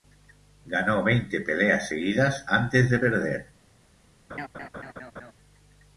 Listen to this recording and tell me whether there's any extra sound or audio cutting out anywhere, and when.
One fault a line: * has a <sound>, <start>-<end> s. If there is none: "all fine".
* has a laugh, 4.3-5.3 s